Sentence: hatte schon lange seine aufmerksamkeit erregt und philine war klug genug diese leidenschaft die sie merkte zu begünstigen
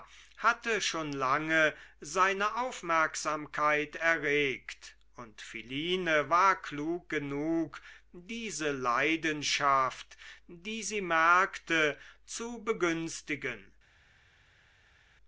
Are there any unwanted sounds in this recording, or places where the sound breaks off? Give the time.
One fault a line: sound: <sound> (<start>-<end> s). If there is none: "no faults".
no faults